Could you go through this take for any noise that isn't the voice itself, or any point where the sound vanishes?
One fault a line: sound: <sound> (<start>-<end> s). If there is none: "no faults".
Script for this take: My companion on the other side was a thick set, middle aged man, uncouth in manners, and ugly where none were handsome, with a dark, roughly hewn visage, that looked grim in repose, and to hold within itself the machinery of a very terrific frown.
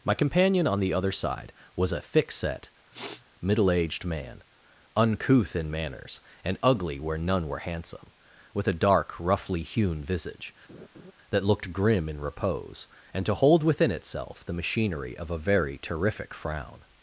sound: sniff (2.9-3.2 s)
sound: laugh (10.7-11.1 s)